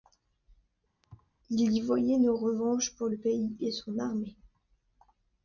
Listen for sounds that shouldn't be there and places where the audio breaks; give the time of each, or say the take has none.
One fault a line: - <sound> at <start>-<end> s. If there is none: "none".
- thud at 1.0-1.3 s